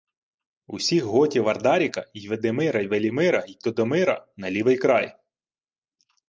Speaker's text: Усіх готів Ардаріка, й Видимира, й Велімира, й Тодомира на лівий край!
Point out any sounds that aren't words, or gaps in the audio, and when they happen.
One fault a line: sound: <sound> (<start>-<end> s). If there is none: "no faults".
no faults